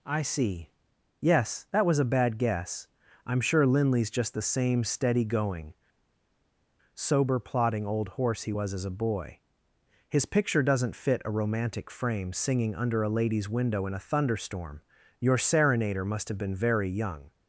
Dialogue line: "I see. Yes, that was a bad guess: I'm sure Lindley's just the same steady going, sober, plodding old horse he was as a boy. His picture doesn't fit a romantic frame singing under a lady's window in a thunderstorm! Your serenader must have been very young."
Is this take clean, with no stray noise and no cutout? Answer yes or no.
yes